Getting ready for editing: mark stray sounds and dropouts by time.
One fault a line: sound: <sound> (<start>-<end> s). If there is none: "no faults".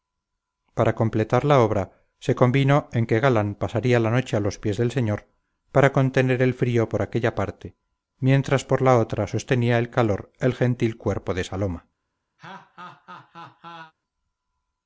sound: laugh (12.4-13.9 s)